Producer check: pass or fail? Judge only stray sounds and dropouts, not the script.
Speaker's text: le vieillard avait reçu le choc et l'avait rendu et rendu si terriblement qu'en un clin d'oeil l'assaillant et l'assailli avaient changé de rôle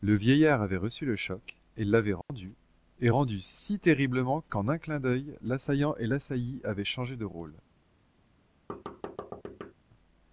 fail